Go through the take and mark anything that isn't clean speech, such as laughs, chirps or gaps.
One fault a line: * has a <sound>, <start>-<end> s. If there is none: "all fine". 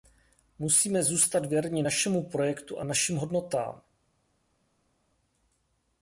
all fine